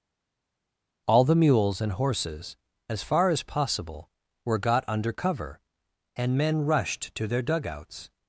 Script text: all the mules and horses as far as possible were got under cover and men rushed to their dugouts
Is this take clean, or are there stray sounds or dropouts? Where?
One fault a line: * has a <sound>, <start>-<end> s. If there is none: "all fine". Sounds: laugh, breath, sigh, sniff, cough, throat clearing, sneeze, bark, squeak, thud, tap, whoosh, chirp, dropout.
all fine